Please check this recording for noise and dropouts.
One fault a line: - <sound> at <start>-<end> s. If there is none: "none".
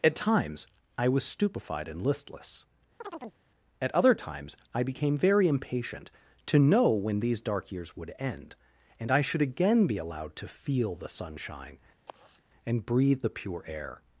- chirp at 3.0-3.4 s
- sigh at 12.1-12.4 s